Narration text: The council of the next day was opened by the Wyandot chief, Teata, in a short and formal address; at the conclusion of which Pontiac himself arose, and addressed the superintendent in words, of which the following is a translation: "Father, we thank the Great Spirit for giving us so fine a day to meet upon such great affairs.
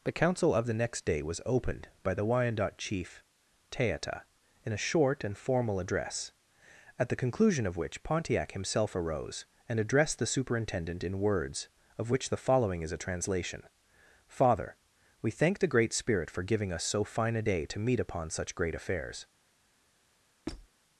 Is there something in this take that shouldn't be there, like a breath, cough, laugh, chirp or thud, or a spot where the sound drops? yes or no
yes